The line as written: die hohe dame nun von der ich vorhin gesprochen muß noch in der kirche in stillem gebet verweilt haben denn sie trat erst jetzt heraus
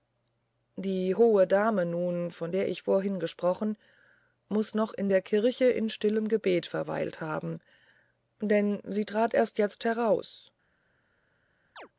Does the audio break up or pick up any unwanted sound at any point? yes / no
yes